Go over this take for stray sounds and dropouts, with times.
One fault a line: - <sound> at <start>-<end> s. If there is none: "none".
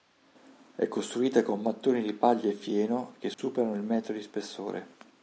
- dropout at 3.3-3.4 s